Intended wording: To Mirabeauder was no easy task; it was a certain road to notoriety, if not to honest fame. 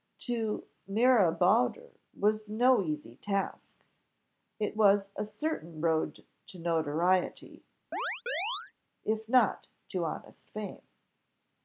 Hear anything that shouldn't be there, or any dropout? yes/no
yes